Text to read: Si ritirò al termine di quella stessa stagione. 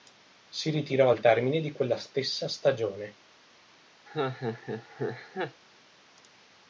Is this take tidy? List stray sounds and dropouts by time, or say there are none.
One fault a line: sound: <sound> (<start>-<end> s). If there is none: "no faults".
sound: laugh (4.1-5.6 s)